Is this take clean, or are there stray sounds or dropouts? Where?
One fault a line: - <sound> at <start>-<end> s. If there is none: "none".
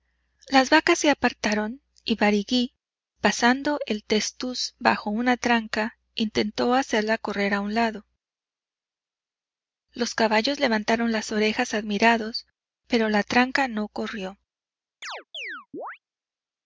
- chirp at 15.0-16.0 s